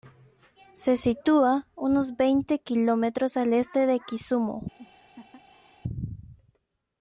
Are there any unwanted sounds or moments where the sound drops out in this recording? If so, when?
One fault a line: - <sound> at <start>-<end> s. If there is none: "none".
- laugh at 4.8-5.8 s